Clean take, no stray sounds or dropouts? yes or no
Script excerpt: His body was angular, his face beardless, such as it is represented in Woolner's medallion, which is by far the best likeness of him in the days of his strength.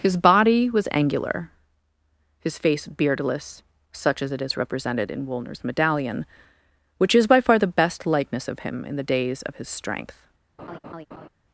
no